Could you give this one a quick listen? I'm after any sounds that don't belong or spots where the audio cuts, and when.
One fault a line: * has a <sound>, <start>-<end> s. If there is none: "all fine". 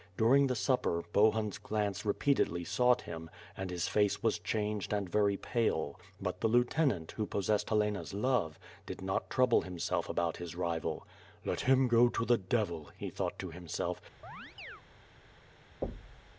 * has a chirp, 14.2-14.8 s
* has a thud, 15.8-16.3 s